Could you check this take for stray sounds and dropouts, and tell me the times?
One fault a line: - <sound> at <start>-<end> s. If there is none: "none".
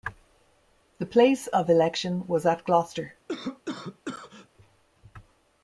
- cough at 3.3-4.5 s